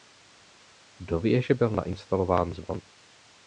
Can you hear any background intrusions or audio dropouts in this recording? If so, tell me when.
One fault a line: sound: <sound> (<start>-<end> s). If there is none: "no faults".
no faults